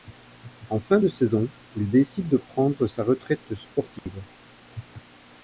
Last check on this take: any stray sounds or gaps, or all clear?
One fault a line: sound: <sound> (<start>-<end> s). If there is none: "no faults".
sound: dropout (4.0-4.1 s)